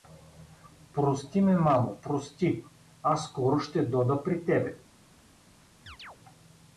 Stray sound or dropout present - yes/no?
yes